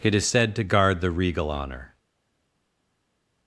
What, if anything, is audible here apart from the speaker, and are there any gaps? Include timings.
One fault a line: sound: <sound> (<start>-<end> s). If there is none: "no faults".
no faults